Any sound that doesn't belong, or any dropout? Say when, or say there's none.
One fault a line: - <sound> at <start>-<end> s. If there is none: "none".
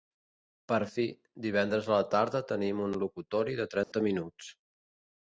- dropout at 3.8-3.9 s